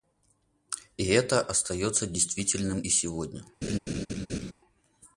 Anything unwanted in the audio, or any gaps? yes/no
yes